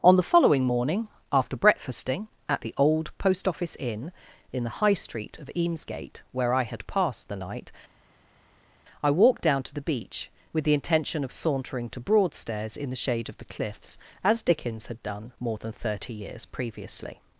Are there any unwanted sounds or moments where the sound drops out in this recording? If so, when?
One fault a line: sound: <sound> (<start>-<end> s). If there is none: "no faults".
no faults